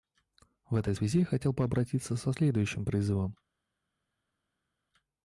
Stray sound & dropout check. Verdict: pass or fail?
pass